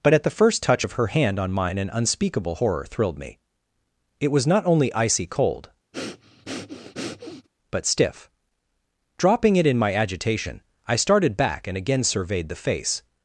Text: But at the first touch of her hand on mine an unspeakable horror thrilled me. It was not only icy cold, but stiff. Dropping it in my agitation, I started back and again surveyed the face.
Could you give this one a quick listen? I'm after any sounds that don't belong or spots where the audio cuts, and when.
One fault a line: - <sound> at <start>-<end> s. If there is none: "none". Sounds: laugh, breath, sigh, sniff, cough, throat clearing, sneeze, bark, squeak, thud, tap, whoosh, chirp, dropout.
- breath at 5.9-7.5 s